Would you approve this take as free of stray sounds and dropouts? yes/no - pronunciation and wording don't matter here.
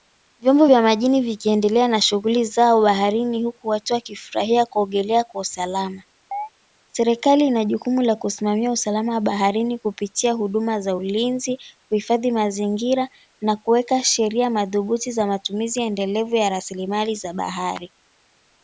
no